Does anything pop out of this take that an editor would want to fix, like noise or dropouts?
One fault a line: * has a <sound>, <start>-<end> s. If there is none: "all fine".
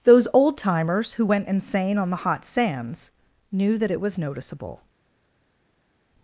all fine